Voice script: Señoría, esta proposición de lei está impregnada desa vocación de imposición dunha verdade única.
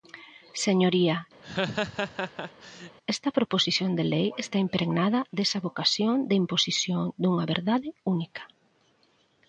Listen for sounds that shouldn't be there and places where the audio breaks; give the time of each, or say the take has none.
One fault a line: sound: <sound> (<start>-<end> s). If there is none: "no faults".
sound: laugh (1.4-3.0 s)